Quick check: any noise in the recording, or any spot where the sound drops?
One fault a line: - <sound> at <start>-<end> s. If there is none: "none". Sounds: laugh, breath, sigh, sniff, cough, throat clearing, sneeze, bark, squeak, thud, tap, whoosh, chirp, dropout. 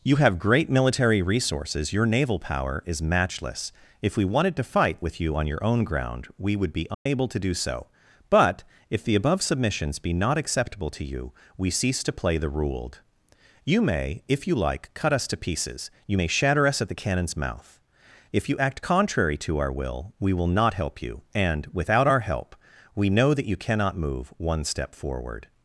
- dropout at 6.9-7.1 s